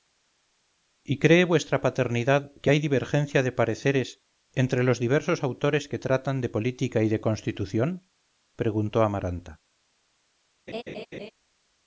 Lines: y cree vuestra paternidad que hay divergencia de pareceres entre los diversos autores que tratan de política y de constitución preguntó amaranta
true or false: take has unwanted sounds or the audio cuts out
true